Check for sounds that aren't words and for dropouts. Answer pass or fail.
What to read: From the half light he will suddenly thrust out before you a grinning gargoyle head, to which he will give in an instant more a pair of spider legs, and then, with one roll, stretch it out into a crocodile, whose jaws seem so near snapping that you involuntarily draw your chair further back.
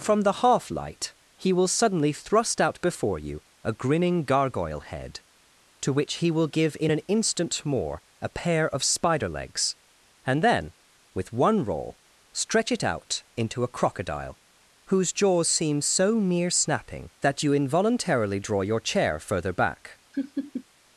fail